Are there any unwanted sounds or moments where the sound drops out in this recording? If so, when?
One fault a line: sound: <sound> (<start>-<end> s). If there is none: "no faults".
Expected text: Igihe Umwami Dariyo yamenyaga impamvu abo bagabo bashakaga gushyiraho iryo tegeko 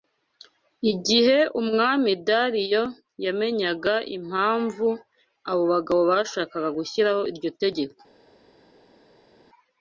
no faults